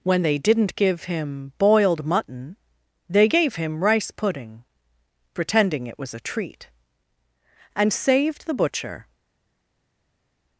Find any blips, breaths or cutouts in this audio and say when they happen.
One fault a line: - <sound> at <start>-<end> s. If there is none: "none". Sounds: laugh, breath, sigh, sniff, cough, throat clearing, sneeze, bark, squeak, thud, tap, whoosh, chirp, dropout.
none